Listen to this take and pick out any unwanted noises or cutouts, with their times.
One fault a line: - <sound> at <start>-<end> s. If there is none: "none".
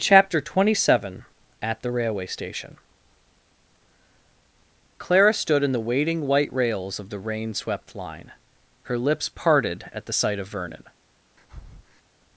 - breath at 11.4-12.0 s